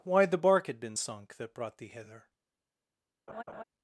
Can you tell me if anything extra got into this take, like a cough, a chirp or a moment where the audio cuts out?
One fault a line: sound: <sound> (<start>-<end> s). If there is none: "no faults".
sound: laugh (3.3-3.6 s)